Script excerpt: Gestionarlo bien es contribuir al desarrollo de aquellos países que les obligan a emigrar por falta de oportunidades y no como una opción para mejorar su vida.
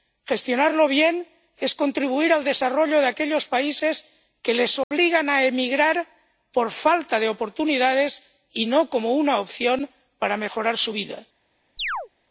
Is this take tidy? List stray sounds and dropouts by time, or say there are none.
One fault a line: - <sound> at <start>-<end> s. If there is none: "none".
- dropout at 4.8-4.9 s
- chirp at 11.8-12.1 s